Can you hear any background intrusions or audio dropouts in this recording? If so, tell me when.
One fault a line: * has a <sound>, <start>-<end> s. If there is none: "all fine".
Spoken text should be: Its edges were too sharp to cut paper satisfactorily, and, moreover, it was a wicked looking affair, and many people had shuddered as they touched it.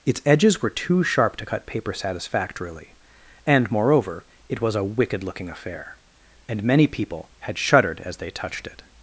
all fine